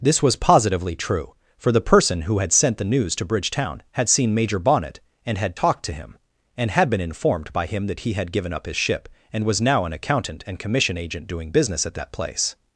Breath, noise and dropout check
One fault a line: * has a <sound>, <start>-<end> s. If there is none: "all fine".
all fine